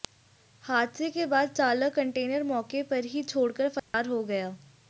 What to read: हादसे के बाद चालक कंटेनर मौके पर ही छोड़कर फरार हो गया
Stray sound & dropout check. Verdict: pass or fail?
fail